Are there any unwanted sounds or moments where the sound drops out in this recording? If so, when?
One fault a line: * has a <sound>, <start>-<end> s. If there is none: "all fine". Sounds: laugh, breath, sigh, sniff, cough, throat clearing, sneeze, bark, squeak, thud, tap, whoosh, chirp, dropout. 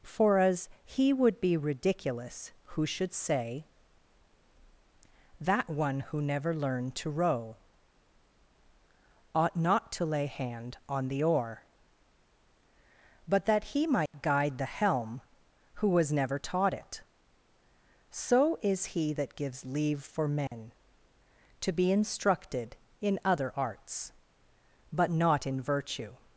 * has a dropout, 14.1-14.1 s
* has a dropout, 20.5-20.5 s